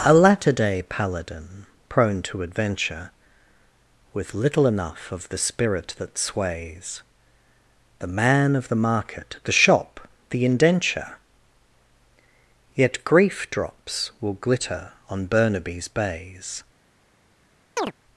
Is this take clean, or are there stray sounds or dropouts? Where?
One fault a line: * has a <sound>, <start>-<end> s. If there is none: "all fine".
* has a chirp, 17.8-17.9 s